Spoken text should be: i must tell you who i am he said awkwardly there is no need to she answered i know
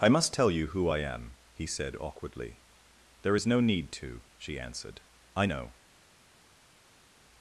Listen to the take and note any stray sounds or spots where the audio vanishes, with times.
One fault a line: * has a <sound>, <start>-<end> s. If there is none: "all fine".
all fine